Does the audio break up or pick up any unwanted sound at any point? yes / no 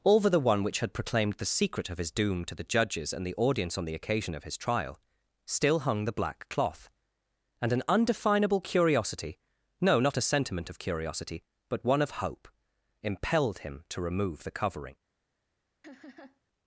yes